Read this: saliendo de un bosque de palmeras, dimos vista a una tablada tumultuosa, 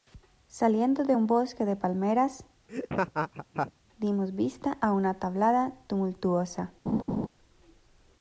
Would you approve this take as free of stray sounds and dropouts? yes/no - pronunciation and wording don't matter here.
no